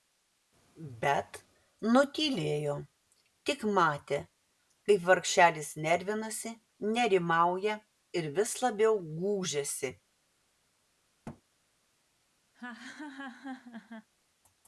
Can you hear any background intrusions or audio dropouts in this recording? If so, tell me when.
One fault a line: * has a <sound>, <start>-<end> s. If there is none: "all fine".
* has a thud, 11.2-11.4 s
* has a laugh, 12.5-14.1 s